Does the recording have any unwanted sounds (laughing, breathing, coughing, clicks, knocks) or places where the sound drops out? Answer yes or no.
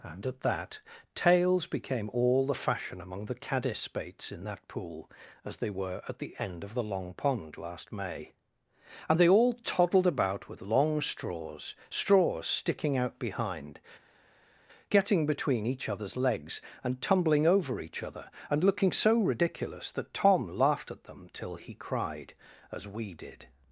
no